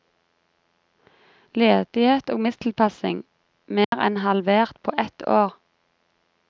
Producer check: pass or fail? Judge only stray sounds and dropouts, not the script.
fail